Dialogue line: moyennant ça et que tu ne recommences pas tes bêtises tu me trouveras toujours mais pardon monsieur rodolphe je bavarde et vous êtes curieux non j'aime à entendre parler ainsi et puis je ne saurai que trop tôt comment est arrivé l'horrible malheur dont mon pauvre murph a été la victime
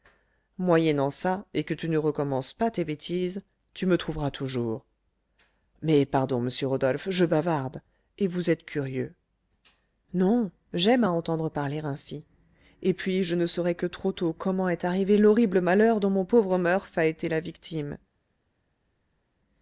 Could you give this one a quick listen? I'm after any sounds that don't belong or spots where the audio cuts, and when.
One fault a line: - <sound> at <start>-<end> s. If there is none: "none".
none